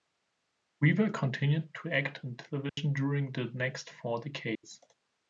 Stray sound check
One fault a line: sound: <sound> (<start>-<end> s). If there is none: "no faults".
sound: dropout (2.7-2.8 s)
sound: dropout (4.6-4.6 s)